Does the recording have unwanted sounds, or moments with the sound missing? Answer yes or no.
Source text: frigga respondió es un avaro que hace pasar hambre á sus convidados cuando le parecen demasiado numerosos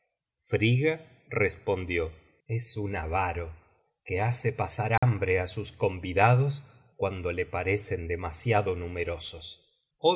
yes